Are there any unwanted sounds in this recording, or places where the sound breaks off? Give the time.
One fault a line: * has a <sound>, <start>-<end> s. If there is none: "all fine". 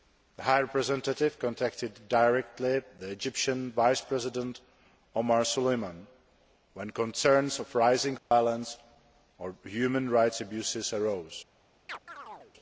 * has a dropout, 8.2-8.3 s
* has a chirp, 11.9-12.5 s